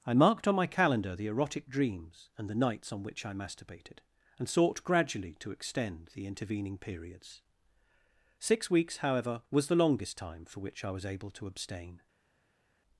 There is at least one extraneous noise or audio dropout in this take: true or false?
false